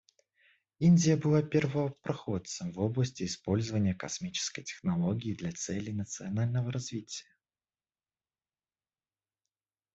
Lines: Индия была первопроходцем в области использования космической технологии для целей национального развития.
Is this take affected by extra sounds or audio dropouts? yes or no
no